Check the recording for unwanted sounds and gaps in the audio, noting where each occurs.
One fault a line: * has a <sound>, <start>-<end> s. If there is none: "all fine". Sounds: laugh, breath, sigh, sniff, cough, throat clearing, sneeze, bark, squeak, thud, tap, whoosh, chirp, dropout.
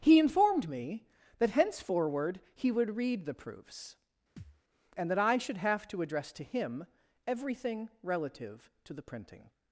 * has a thud, 4.4-4.6 s